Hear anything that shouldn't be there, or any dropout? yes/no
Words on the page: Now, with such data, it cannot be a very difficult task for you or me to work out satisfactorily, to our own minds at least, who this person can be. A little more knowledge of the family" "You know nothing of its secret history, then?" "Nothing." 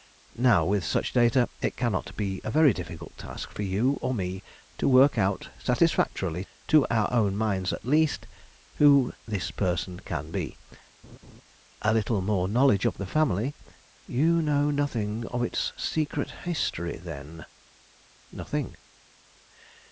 yes